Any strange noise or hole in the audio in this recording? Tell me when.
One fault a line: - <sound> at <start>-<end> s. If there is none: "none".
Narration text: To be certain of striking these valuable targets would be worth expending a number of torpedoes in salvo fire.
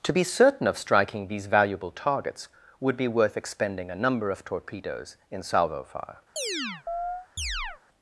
- chirp at 6.4-7.8 s